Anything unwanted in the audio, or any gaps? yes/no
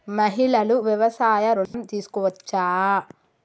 yes